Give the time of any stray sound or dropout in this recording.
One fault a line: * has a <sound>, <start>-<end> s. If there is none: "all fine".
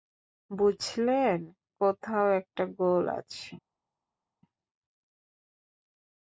all fine